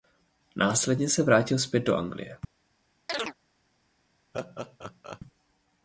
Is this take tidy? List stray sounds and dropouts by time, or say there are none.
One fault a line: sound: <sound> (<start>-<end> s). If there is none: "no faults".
sound: chirp (3.1-3.3 s)
sound: laugh (4.3-5.2 s)